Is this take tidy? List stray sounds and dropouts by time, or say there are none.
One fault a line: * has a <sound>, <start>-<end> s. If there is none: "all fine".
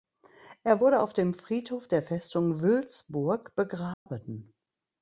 * has a dropout, 3.9-4.1 s